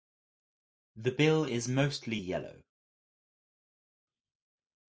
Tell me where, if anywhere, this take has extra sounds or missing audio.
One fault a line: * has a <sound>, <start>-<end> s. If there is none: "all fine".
all fine